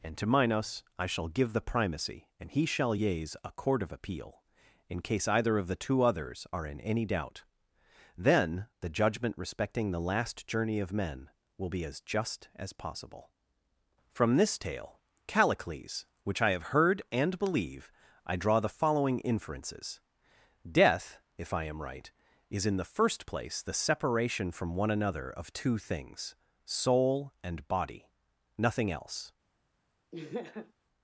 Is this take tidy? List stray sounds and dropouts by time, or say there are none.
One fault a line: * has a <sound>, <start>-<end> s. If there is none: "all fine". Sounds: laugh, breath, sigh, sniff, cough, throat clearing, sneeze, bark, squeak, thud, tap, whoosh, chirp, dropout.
* has a laugh, 30.1-30.7 s